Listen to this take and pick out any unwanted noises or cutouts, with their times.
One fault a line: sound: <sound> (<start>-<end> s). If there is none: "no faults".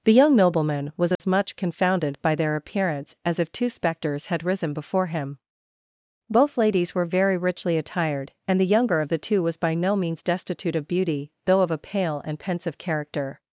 sound: dropout (1.2-1.2 s)